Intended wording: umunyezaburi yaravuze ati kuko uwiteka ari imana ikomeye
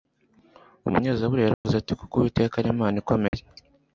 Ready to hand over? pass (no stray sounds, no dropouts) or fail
fail